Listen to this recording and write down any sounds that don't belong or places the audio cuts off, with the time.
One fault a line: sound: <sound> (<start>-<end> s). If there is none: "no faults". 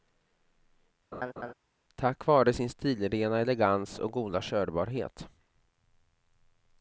sound: laugh (1.1-1.5 s)